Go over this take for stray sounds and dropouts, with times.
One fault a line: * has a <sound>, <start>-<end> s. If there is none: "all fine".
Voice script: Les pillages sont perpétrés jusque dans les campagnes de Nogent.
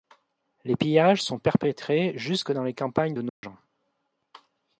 * has a dropout, 3.3-3.4 s